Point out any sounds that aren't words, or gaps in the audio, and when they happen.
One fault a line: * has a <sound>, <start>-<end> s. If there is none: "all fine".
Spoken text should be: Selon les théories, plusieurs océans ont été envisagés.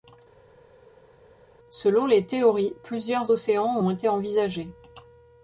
all fine